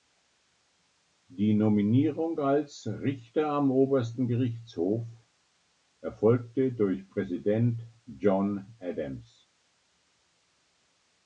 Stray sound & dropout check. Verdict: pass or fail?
pass